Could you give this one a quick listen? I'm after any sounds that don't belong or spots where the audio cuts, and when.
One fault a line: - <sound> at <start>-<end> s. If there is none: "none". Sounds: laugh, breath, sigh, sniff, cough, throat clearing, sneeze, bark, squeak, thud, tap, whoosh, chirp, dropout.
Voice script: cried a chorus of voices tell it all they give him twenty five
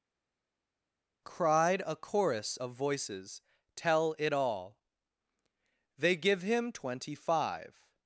none